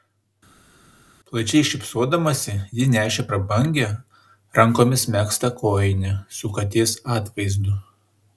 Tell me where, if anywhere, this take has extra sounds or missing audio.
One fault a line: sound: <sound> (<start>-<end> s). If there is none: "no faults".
no faults